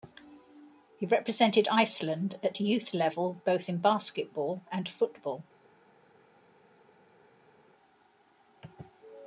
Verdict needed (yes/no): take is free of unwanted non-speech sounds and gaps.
yes